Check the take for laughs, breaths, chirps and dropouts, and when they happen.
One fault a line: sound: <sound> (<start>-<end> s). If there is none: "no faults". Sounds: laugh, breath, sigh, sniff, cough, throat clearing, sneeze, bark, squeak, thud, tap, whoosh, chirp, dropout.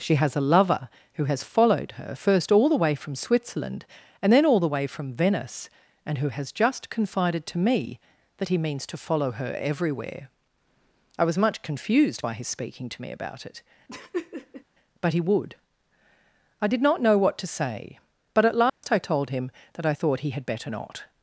sound: laugh (13.9-14.6 s)
sound: dropout (18.7-18.8 s)